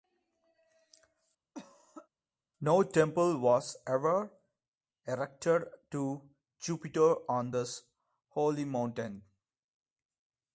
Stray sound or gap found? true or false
true